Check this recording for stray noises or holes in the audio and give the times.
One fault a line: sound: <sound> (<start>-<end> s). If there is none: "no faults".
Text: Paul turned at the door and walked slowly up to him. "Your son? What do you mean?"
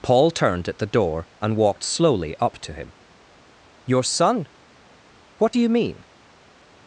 no faults